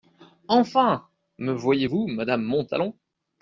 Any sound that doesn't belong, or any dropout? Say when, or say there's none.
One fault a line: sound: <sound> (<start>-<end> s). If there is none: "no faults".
no faults